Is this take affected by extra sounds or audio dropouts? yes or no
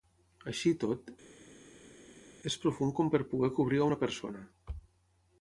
no